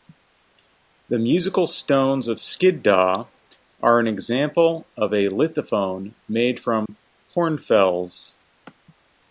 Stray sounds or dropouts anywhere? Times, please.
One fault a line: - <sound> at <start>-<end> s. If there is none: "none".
- dropout at 6.9-6.9 s